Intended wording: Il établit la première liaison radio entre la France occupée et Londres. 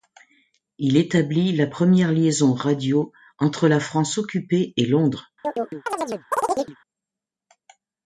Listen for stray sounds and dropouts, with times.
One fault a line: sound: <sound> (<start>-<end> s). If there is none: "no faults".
sound: chirp (5.4-6.8 s)